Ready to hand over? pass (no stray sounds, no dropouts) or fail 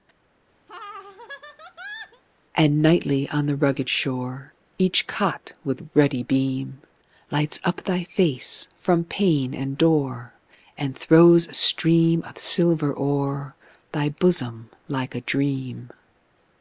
fail